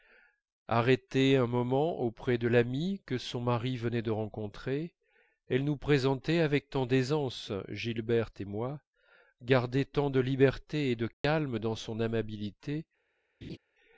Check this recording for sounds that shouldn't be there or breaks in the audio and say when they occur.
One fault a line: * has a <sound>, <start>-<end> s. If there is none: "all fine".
* has a dropout, 11.1-11.2 s
* has a laugh, 13.4-13.6 s